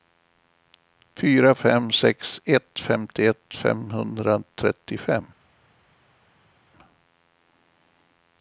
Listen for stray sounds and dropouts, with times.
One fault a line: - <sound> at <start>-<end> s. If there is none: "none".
none